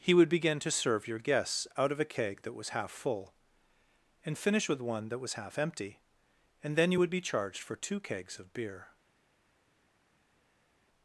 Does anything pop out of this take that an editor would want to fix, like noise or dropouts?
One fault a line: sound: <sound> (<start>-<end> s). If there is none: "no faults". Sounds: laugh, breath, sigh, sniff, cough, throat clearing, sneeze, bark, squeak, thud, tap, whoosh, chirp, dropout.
no faults